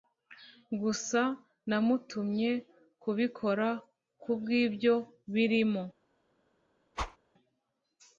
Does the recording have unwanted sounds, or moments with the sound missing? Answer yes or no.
yes